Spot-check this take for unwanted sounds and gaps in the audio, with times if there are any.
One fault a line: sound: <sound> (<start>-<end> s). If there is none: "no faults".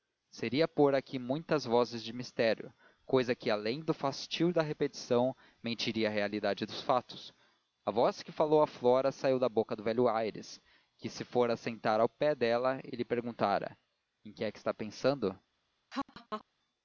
sound: laugh (15.9-16.4 s)